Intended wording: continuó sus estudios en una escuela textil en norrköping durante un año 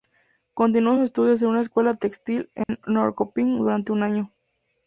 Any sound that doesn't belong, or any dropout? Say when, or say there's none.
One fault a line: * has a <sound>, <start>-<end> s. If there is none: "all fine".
* has a dropout, 2.6-2.7 s